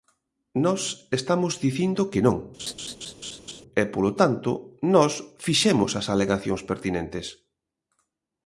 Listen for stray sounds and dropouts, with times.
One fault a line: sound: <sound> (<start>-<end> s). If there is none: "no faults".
sound: laugh (2.6-3.6 s)